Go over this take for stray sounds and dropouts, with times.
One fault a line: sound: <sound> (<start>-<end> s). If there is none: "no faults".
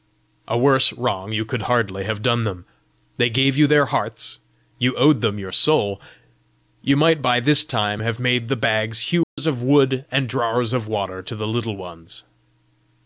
sound: dropout (9.2-9.4 s)